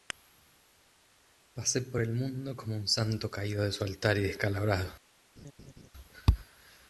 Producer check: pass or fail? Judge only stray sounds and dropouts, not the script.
fail